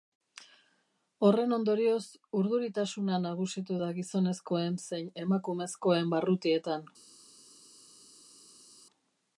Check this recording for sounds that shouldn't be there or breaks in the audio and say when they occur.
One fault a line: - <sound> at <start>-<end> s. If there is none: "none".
none